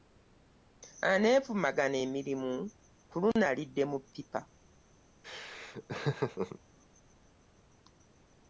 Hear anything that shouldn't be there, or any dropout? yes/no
yes